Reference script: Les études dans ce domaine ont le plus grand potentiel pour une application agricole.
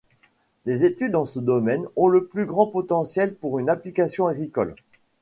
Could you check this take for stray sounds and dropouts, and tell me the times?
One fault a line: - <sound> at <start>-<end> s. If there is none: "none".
none